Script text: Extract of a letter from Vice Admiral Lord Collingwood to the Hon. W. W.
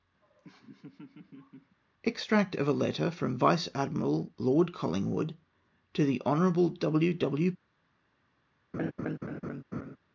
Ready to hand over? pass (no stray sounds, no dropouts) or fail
fail